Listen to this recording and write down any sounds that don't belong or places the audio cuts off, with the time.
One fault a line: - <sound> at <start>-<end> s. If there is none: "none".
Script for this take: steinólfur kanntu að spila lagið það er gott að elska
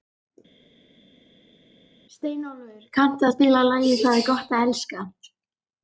none